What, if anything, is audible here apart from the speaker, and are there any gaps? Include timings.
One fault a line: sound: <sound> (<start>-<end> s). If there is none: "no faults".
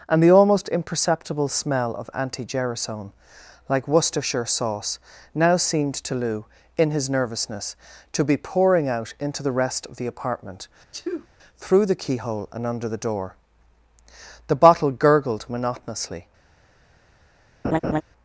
sound: sneeze (10.9-11.3 s)
sound: laugh (17.6-18.0 s)